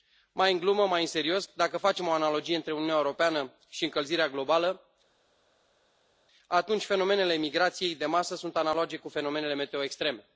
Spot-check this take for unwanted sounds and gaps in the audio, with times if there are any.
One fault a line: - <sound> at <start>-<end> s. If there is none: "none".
none